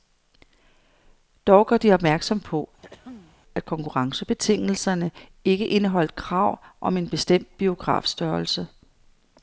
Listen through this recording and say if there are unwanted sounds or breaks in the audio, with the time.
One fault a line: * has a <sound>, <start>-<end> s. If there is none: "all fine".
* has a throat clearing, 2.8-3.4 s